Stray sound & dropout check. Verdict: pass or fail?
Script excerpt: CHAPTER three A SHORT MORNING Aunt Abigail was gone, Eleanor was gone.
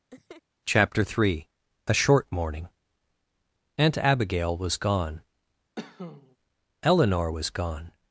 fail